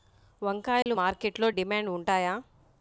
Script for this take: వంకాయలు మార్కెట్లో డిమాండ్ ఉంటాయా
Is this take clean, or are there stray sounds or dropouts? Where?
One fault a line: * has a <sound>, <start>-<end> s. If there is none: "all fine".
* has a dropout, 0.8-0.9 s